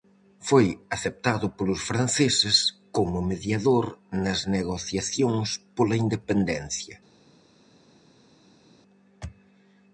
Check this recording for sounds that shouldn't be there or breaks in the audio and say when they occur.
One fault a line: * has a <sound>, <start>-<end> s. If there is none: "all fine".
all fine